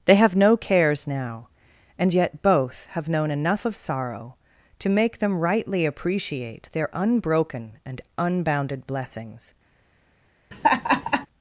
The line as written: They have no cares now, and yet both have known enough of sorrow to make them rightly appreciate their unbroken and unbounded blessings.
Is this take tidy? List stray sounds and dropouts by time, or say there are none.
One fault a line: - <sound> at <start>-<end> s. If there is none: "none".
- laugh at 10.5-11.3 s